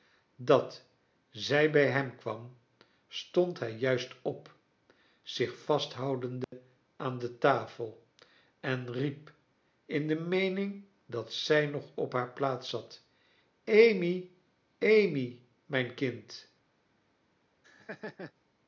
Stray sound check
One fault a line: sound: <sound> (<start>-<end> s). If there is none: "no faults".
sound: dropout (6.4-6.5 s)
sound: laugh (17.6-18.3 s)